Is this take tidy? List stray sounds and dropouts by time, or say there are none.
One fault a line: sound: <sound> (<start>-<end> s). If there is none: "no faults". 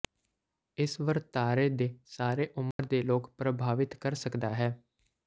sound: dropout (2.7-2.8 s)